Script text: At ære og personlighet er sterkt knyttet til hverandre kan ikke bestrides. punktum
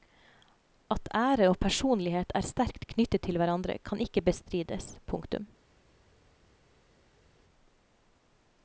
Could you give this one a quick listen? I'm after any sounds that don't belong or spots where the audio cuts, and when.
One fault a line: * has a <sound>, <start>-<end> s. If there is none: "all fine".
all fine